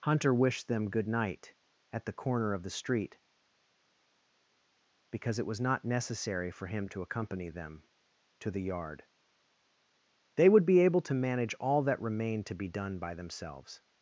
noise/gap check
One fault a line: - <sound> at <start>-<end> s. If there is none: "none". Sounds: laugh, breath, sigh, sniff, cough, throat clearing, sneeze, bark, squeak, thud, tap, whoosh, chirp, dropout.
none